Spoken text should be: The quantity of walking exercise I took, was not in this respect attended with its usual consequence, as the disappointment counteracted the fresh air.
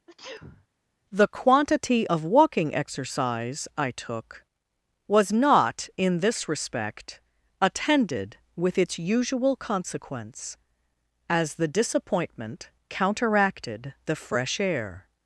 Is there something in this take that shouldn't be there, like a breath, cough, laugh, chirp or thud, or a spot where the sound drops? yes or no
yes